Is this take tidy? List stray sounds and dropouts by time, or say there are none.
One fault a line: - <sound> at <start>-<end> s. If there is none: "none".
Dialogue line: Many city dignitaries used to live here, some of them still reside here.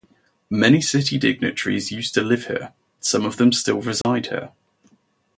- dropout at 4.0-4.0 s